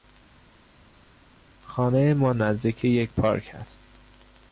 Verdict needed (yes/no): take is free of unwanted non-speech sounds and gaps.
yes